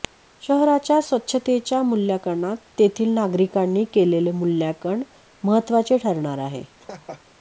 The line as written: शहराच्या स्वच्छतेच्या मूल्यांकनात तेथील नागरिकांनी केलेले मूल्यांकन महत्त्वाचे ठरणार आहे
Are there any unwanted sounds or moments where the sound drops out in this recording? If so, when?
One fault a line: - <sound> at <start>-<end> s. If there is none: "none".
- laugh at 6.8-7.2 s